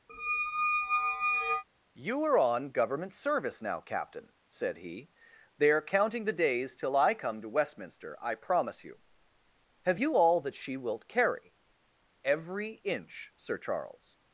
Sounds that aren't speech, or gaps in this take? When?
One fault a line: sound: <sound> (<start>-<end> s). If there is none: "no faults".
sound: squeak (0.1-1.6 s)